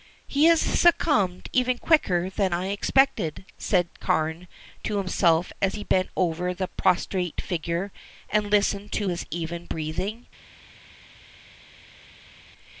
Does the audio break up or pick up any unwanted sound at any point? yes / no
no